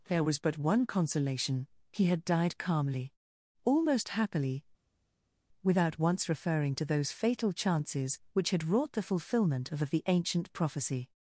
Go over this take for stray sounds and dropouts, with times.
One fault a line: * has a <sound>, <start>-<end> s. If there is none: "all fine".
all fine